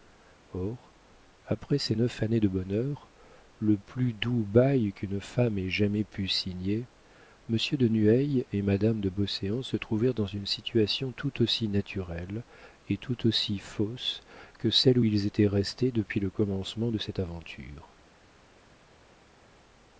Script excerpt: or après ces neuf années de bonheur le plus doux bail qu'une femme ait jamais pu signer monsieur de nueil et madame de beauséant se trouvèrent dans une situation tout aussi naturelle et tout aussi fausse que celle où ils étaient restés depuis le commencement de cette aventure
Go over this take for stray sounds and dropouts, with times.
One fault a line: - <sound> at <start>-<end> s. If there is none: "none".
none